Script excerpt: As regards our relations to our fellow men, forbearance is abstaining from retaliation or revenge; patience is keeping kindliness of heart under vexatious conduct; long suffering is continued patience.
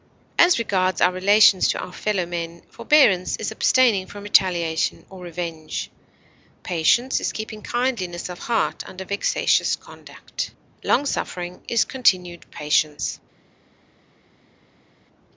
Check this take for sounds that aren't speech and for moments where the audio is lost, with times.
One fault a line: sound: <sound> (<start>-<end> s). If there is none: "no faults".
no faults